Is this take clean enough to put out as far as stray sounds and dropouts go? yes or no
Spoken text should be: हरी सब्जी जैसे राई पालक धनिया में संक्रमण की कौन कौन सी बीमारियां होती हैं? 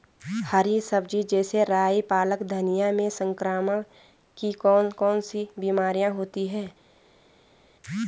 yes